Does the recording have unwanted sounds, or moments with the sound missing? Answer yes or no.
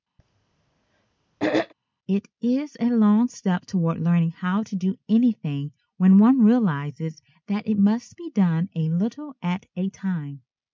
yes